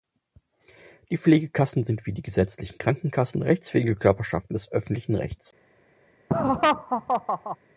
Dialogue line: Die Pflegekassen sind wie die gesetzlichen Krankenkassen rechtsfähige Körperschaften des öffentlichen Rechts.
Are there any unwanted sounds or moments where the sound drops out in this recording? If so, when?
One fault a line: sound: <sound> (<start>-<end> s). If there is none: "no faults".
sound: laugh (6.3-7.6 s)